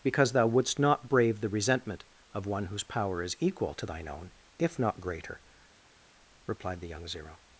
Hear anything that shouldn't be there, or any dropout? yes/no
no